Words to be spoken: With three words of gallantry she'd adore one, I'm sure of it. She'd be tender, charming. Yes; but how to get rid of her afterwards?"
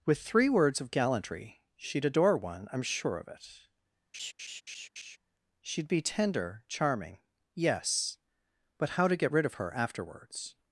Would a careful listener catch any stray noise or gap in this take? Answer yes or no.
yes